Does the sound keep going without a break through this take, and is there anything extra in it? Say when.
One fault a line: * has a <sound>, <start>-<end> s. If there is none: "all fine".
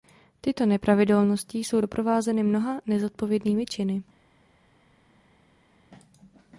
all fine